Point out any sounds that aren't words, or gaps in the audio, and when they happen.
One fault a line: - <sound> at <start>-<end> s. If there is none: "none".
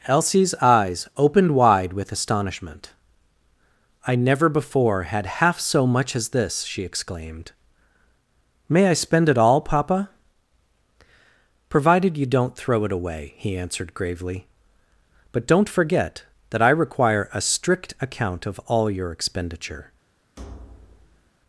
- thud at 20.4-21.3 s